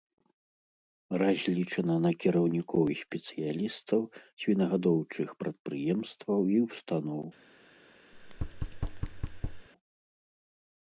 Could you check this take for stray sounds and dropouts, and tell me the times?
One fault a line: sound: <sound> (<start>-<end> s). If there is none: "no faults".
sound: thud (8.1-9.7 s)